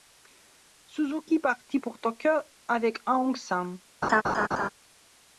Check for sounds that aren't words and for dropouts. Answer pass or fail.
fail